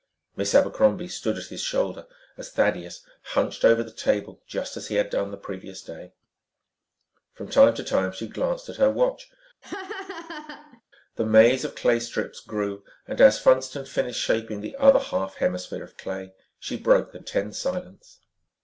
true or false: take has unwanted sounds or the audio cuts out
true